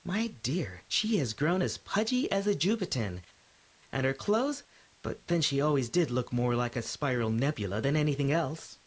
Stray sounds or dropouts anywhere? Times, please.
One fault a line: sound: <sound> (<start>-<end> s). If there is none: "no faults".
no faults